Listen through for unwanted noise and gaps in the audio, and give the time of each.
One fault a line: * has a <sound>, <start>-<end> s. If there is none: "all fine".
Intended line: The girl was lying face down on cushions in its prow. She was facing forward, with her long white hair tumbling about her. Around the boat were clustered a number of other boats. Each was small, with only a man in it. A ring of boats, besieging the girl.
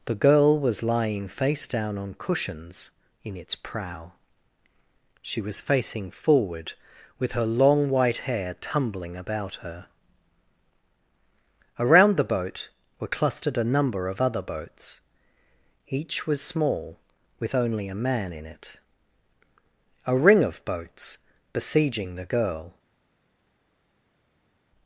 all fine